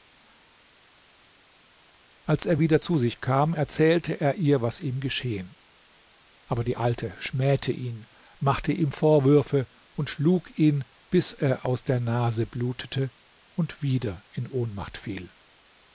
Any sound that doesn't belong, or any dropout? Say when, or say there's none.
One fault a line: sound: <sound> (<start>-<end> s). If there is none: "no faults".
no faults